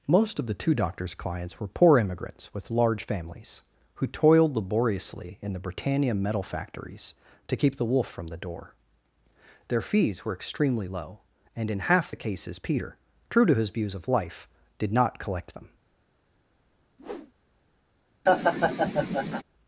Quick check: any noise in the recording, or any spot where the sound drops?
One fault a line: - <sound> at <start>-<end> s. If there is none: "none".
- whoosh at 17.0-17.3 s
- laugh at 18.3-19.4 s